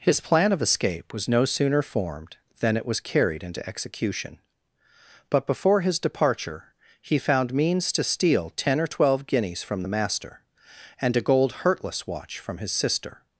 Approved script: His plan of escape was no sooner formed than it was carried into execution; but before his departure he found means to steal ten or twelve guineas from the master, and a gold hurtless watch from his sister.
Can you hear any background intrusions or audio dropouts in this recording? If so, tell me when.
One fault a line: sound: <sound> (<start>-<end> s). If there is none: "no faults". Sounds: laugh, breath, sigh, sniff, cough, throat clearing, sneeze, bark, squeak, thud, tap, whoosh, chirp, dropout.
no faults